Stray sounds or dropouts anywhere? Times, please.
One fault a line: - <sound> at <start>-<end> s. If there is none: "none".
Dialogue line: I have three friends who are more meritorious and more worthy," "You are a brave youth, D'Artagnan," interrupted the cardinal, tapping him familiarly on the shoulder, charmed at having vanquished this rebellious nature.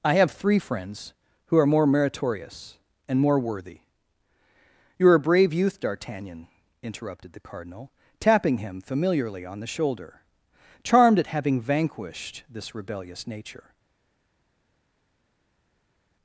none